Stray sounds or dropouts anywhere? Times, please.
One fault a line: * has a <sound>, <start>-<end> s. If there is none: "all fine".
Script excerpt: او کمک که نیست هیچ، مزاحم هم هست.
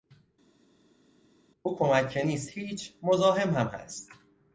all fine